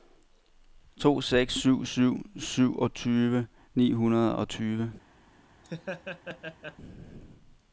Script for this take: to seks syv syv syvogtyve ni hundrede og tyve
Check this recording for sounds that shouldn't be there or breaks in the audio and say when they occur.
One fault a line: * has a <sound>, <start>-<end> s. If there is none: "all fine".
* has a laugh, 5.6-6.8 s